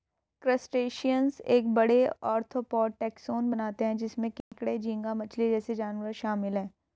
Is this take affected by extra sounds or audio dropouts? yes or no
yes